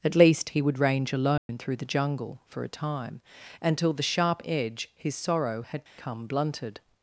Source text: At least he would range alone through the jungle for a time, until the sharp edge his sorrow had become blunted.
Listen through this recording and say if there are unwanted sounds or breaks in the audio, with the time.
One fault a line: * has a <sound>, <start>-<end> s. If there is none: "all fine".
* has a dropout, 1.4-1.5 s
* has a dropout, 5.9-6.0 s